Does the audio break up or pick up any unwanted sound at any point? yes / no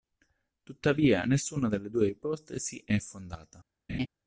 yes